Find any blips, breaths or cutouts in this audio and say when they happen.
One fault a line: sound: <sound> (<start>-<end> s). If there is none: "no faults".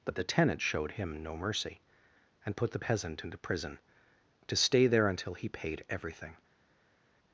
no faults